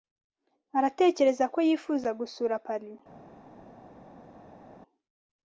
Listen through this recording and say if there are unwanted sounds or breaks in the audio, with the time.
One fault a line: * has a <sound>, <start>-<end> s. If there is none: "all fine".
all fine